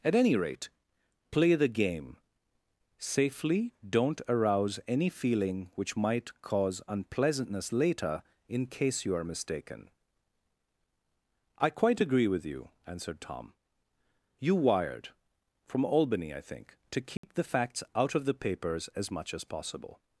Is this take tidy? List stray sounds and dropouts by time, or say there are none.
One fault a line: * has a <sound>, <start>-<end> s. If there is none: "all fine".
* has a dropout, 17.2-17.2 s